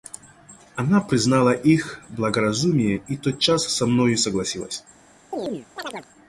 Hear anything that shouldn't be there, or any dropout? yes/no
yes